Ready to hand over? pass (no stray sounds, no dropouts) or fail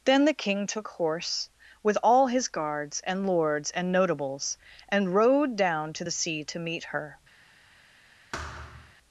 fail